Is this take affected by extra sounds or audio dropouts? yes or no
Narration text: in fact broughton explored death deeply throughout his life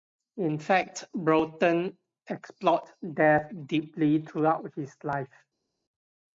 no